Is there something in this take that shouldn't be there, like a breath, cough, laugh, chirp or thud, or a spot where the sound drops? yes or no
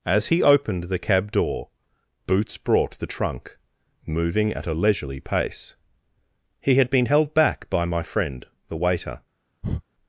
yes